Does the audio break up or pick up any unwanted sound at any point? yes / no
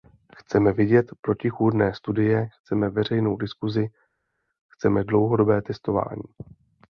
no